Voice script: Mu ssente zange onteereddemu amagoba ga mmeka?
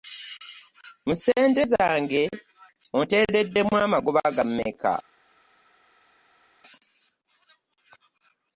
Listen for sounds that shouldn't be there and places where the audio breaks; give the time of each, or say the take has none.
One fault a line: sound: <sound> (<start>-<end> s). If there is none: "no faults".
no faults